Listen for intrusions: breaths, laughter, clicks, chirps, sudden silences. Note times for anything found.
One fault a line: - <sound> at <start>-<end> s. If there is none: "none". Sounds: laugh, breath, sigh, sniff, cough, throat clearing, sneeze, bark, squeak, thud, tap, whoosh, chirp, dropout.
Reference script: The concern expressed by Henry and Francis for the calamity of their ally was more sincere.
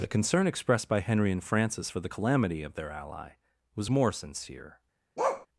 - bark at 5.2-5.5 s